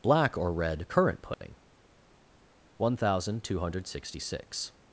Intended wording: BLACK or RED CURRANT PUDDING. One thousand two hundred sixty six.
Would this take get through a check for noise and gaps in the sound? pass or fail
fail